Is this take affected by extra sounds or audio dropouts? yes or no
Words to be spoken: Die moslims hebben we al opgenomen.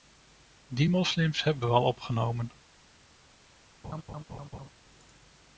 yes